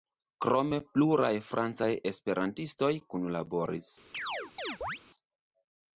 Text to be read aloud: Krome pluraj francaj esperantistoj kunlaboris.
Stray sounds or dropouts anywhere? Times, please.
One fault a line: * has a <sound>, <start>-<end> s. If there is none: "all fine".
* has a chirp, 4.1-5.0 s